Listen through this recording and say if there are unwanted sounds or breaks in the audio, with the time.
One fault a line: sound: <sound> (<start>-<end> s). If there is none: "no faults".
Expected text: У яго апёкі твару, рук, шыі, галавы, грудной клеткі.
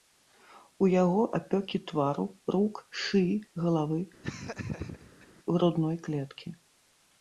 sound: laugh (4.2-5.3 s)